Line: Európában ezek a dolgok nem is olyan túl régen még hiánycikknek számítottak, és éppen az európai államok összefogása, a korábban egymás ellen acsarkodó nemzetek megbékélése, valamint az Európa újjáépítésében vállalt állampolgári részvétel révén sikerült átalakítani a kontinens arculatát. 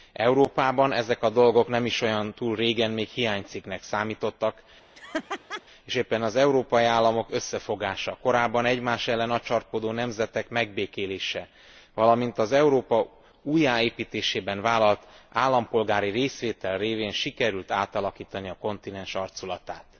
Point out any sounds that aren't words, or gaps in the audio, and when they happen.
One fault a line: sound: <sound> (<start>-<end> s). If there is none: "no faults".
sound: laugh (4.9-5.6 s)